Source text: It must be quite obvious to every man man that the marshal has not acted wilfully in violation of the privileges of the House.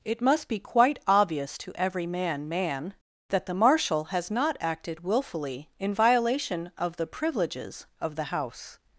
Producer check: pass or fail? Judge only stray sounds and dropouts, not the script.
pass